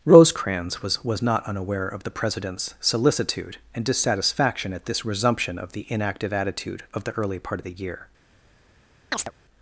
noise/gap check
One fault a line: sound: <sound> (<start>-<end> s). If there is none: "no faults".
sound: chirp (9.1-9.3 s)